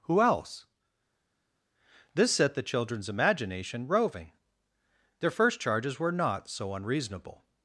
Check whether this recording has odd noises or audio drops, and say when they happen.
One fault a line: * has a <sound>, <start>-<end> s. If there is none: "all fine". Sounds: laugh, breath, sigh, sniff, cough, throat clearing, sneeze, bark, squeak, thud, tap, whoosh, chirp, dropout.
all fine